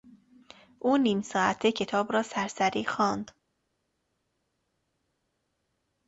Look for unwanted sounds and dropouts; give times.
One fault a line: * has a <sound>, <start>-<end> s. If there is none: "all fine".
all fine